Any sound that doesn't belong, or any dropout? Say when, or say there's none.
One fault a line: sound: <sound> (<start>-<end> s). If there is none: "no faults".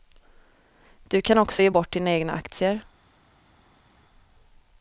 no faults